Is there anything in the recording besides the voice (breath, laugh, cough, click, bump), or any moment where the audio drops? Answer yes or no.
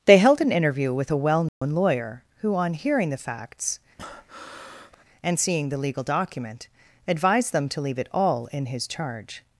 yes